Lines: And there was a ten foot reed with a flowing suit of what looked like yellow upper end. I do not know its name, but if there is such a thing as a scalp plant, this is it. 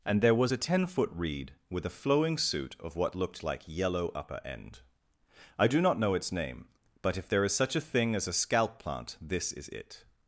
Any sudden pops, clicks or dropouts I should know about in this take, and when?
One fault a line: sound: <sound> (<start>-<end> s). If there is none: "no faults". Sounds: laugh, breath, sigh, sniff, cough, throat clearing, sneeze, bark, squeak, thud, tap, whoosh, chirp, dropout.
no faults